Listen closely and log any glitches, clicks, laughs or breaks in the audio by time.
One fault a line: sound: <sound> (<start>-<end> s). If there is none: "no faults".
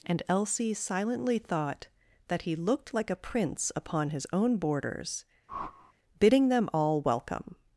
sound: whoosh (5.5-5.9 s)